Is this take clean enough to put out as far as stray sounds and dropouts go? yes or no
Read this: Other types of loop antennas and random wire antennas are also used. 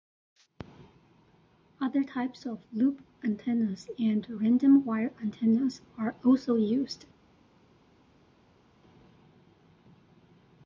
yes